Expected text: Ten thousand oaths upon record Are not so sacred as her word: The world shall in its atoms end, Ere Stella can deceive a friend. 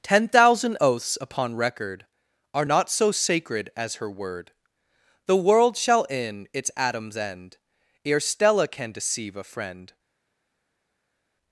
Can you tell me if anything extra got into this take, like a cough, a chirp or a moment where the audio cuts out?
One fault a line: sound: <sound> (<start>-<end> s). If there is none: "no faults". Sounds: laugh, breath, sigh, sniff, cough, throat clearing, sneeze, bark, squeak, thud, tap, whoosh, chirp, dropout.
no faults